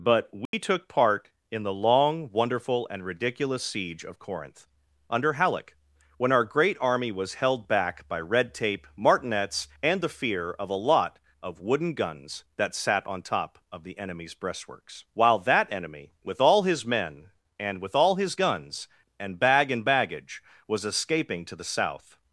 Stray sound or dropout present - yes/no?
yes